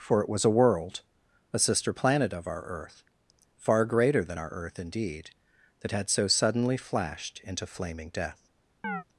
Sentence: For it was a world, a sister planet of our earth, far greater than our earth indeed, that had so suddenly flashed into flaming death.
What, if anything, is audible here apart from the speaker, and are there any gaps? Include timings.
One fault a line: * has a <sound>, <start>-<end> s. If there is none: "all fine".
* has a chirp, 8.8-9.0 s